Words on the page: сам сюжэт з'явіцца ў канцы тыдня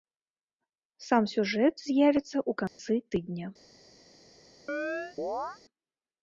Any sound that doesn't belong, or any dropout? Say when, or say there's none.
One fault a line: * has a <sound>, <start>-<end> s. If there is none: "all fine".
* has a dropout, 2.7-2.8 s
* has a chirp, 4.7-5.6 s